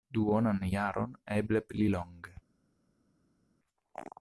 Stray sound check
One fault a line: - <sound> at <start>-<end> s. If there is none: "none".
none